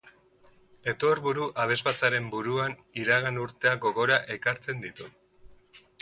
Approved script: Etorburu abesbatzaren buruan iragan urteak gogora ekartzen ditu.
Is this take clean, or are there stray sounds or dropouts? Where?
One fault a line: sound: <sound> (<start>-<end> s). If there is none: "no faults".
no faults